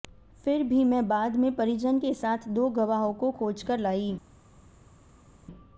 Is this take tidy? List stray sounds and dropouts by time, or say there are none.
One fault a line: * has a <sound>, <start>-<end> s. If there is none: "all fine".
all fine